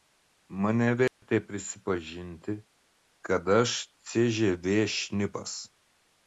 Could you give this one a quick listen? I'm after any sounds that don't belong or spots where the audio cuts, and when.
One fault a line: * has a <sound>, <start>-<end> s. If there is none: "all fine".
* has a dropout, 1.1-1.2 s